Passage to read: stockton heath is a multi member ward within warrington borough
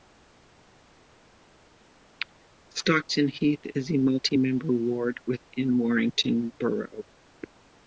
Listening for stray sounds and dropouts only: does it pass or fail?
pass